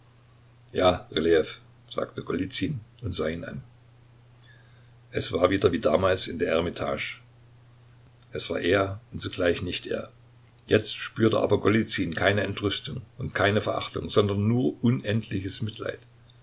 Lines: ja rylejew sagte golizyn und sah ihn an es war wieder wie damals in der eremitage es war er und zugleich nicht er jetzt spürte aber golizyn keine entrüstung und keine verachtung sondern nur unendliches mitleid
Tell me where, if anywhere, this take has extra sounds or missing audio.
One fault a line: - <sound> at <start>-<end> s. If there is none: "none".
none